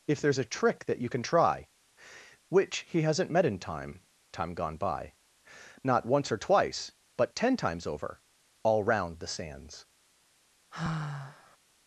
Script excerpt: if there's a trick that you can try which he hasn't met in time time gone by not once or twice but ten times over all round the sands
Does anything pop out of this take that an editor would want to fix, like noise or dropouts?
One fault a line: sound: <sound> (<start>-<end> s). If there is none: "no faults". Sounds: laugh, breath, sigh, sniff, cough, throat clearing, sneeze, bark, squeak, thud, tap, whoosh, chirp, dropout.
sound: sigh (10.7-11.6 s)